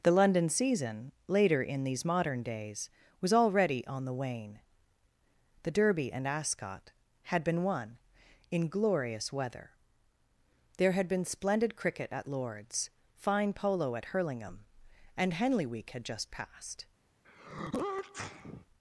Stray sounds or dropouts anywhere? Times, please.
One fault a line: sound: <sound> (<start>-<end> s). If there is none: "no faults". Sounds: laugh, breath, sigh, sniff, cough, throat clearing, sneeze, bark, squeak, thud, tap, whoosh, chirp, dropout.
sound: sneeze (17.2-18.7 s)